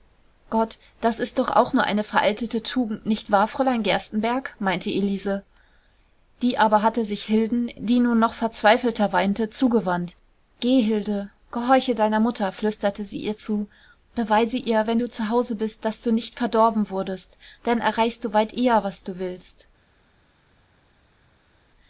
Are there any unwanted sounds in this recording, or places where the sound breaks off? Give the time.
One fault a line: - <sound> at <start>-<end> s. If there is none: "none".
none